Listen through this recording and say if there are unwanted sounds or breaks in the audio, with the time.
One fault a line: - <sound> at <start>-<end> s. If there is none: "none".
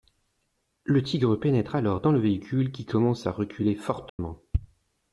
- dropout at 4.1-4.2 s